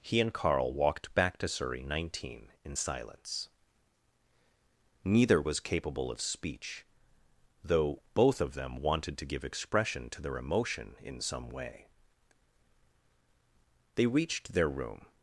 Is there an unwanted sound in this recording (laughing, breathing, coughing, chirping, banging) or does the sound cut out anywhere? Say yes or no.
no